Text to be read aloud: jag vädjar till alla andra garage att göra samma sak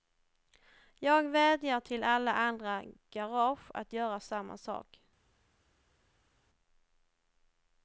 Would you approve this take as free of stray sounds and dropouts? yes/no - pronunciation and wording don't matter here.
yes